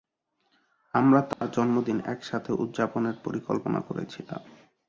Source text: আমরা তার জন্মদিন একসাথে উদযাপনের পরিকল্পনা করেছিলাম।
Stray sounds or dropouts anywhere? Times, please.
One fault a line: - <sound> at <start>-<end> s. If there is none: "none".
- dropout at 1.3-1.4 s